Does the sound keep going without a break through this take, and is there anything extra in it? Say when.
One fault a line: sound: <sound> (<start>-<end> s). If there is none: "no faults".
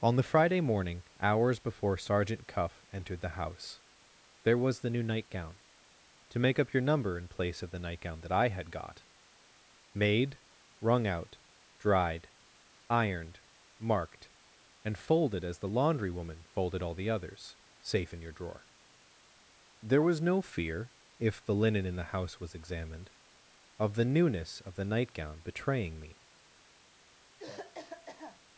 sound: cough (27.4-28.4 s)